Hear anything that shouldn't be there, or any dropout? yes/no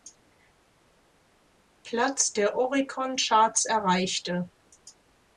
no